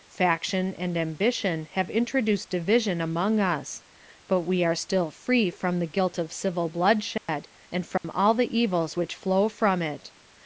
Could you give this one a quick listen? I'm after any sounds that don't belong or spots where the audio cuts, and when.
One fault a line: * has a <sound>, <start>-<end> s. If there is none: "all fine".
* has a dropout, 7.2-7.3 s
* has a dropout, 8.0-8.0 s